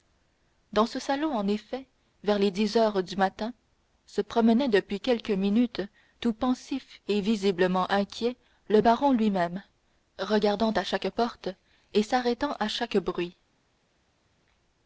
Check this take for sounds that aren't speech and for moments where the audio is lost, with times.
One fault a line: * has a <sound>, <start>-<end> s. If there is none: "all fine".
all fine